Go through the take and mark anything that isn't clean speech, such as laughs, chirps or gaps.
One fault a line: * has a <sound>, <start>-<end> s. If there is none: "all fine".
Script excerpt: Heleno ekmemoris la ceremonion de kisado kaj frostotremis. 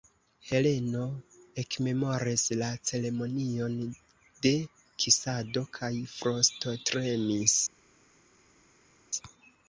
all fine